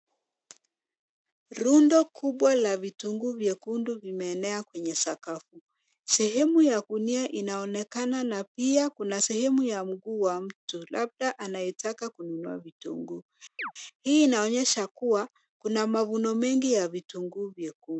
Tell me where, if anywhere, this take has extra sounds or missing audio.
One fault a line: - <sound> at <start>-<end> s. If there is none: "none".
- chirp at 13.6-13.7 s